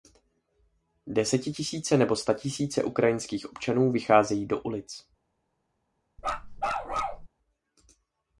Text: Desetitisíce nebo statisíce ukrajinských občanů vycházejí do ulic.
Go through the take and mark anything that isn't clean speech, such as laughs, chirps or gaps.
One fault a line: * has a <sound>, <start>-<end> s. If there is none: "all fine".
* has a bark, 6.2-7.3 s